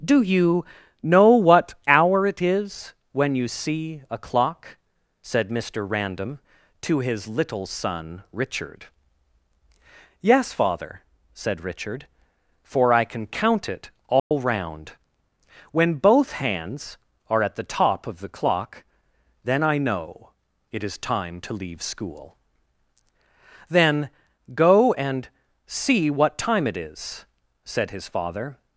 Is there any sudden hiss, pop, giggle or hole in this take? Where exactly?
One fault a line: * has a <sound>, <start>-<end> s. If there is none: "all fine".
* has a dropout, 14.2-14.3 s